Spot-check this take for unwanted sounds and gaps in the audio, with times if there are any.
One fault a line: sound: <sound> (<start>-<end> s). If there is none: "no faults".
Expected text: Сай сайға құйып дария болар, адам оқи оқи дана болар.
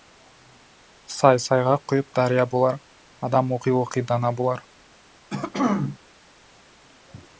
sound: throat clearing (5.3-6.0 s)